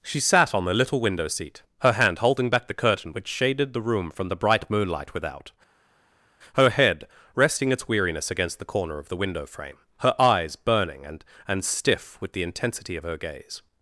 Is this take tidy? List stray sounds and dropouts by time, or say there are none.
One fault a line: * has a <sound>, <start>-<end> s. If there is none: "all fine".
all fine